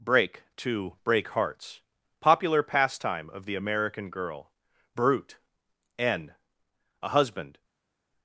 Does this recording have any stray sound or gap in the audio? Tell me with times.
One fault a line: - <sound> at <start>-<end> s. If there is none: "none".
none